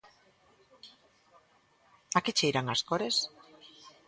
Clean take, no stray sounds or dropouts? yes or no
yes